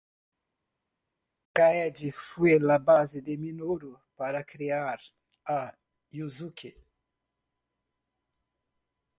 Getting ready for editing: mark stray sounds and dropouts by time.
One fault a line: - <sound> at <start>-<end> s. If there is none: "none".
none